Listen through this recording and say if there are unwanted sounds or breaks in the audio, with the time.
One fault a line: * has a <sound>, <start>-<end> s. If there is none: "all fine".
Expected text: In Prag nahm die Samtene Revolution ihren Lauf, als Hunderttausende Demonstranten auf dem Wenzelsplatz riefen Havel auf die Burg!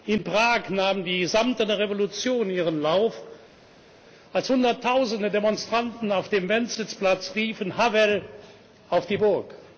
all fine